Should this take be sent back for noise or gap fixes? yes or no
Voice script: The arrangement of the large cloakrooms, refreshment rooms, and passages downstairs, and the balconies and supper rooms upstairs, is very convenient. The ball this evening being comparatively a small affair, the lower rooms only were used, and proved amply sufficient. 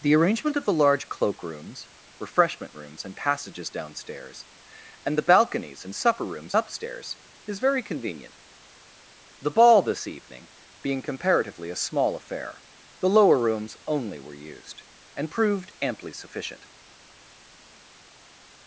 no